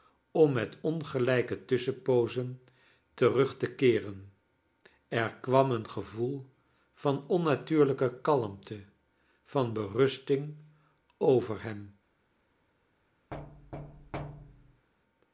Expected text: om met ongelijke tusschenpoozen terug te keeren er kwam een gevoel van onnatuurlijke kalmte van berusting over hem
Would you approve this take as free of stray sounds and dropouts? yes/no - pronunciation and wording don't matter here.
no